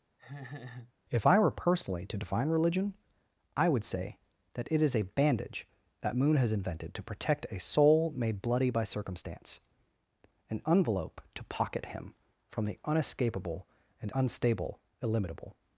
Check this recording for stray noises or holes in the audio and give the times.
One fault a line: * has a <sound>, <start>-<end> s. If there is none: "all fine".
* has a laugh, 0.2-0.9 s